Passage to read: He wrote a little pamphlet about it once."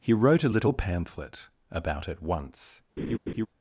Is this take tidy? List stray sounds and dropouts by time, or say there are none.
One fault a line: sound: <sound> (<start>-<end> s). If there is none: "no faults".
sound: laugh (3.0-3.5 s)